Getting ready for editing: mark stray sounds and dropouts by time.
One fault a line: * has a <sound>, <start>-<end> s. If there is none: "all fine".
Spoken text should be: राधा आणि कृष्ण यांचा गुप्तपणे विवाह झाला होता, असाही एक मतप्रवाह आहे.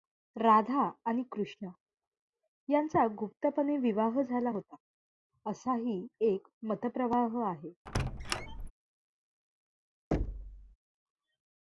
* has a squeak, 7.9-8.7 s
* has a thud, 10.1-10.8 s